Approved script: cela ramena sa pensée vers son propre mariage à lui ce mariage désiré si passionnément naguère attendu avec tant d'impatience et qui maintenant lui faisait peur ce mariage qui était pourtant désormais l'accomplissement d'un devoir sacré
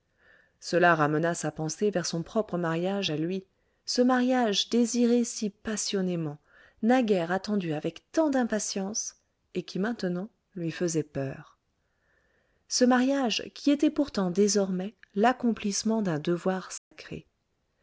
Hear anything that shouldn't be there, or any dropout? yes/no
yes